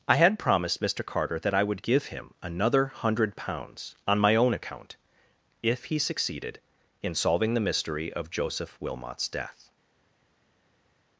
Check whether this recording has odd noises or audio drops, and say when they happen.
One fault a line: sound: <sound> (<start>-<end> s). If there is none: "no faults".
no faults